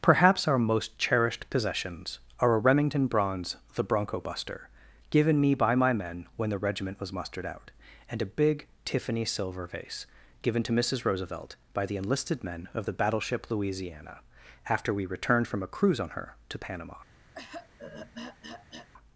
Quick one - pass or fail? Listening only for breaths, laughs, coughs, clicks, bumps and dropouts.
fail